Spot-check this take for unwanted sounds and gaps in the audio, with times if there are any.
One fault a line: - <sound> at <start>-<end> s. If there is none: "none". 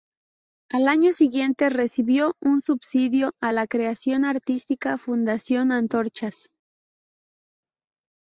none